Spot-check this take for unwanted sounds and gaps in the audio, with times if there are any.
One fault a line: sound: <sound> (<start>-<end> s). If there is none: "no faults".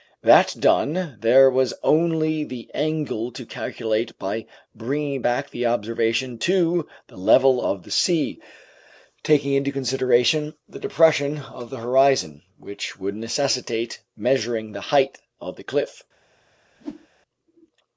sound: whoosh (16.8-17.1 s)